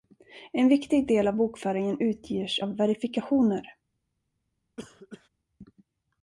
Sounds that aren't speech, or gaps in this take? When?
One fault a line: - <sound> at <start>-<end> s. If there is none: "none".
- cough at 4.8-5.3 s